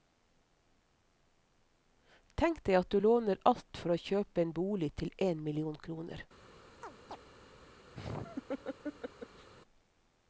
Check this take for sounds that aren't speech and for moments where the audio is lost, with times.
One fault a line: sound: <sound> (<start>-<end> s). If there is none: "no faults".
sound: chirp (6.8-7.2 s)
sound: laugh (7.9-9.5 s)